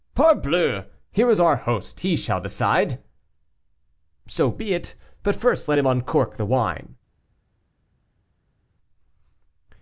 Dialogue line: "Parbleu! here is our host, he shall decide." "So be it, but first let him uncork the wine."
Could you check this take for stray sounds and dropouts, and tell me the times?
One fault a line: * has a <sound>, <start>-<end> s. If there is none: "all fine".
all fine